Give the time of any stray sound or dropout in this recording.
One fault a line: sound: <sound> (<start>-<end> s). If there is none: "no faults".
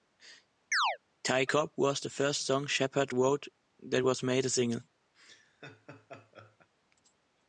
sound: chirp (0.7-1.0 s)
sound: laugh (5.1-6.7 s)